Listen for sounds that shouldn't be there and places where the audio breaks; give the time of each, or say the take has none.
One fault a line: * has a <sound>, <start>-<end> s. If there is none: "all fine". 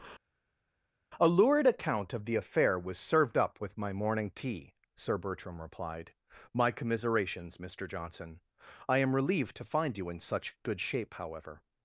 all fine